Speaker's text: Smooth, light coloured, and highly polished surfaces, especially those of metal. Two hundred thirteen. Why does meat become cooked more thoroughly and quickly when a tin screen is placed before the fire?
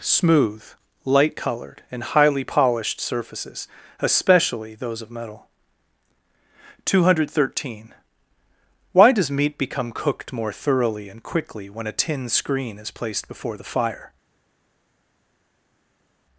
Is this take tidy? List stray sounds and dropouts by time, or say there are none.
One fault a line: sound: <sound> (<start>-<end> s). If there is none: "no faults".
no faults